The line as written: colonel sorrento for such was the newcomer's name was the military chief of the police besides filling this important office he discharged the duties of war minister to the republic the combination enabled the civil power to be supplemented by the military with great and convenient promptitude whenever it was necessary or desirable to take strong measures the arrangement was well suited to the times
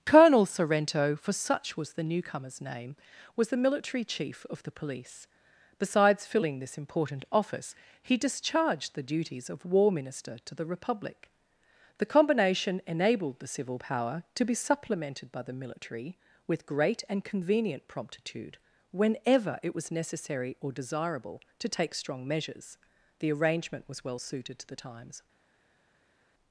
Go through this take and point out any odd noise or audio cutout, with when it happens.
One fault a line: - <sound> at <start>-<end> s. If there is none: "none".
none